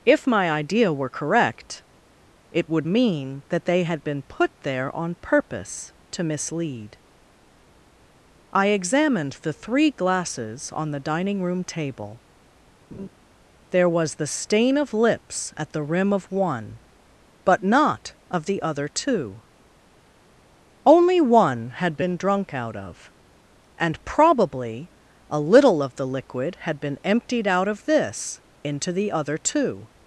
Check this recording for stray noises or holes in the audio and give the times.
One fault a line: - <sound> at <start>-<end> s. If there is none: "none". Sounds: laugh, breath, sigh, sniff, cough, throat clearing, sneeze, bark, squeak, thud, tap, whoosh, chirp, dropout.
- laugh at 12.9-13.1 s